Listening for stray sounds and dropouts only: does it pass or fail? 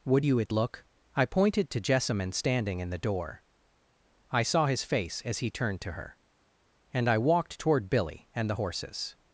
pass